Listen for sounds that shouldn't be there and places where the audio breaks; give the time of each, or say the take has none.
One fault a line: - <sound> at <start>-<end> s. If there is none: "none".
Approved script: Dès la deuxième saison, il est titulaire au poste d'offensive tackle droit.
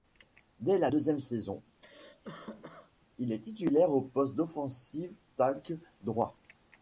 - cough at 1.8-2.9 s